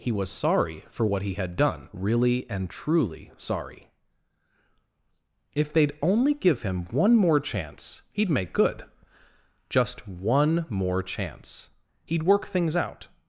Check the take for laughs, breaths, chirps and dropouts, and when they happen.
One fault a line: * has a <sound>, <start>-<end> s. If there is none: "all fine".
all fine